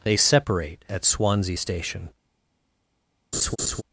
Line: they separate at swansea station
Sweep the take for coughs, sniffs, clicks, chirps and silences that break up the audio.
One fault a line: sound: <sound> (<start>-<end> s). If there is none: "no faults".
sound: laugh (3.3-3.8 s)